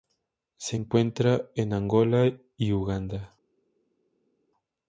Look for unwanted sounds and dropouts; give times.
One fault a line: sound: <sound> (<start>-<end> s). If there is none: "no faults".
no faults